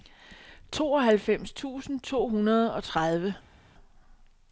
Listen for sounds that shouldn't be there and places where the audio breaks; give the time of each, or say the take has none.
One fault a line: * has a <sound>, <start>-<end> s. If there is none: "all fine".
all fine